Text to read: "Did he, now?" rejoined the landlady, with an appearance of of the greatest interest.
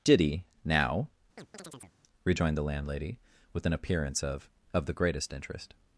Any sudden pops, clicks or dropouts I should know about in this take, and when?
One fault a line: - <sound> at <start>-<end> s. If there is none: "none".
- chirp at 1.4-2.0 s